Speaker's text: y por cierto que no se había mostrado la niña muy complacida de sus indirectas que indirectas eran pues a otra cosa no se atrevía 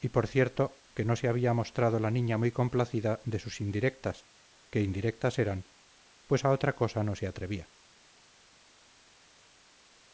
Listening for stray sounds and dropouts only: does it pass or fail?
pass